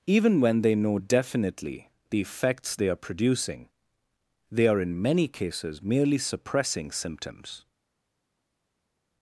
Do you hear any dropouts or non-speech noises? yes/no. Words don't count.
no